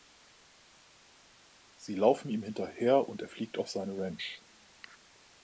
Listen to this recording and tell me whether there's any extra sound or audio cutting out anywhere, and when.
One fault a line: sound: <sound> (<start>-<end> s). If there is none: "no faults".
no faults